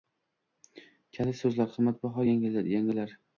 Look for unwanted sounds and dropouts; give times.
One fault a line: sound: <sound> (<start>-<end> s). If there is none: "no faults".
no faults